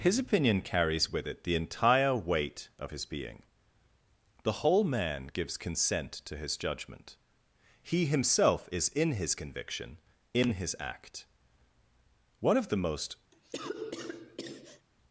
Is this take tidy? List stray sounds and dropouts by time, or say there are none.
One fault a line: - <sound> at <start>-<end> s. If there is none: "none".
- cough at 13.3-14.9 s